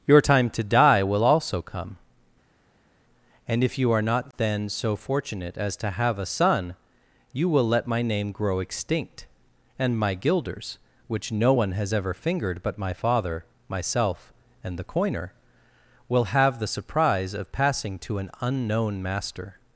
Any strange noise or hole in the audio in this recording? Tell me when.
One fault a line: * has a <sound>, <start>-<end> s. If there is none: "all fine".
all fine